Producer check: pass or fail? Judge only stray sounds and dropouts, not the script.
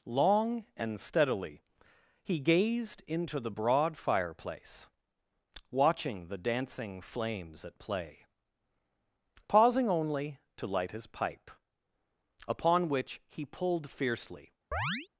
fail